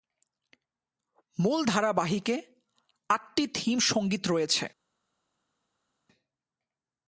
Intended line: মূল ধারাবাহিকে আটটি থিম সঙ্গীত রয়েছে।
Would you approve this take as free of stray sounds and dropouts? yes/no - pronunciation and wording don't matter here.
yes